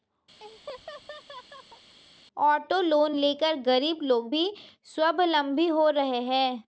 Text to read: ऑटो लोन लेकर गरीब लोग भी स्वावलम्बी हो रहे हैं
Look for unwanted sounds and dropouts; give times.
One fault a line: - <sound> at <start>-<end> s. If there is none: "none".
- laugh at 0.4-2.0 s